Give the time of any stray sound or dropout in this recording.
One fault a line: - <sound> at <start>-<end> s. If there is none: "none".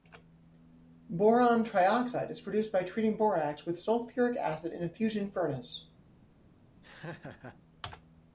- laugh at 6.8-7.6 s